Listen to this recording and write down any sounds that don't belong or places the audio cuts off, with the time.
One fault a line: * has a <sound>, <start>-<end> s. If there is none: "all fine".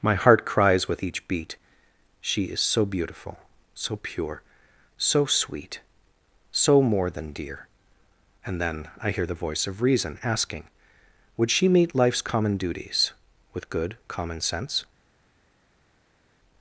all fine